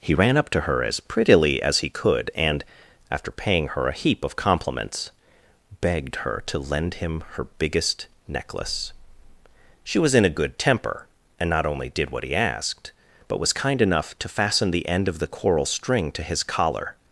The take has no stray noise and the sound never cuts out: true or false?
true